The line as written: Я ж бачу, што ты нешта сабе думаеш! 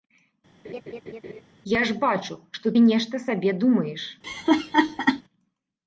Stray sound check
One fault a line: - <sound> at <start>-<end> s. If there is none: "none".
- laugh at 0.6-1.4 s
- laugh at 4.2-5.2 s